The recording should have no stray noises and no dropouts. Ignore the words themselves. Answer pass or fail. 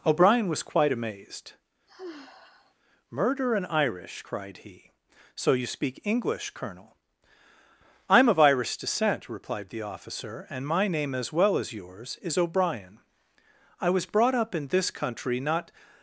fail